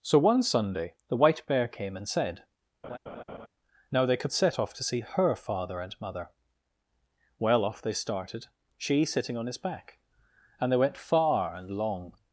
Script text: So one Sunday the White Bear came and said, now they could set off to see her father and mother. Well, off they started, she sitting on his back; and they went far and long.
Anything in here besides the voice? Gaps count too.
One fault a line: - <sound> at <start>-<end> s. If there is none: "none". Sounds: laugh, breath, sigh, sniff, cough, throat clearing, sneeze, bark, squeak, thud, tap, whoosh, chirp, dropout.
- laugh at 2.8-3.5 s